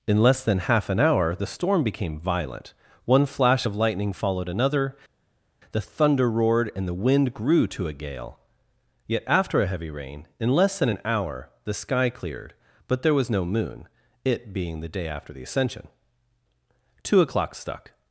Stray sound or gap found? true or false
false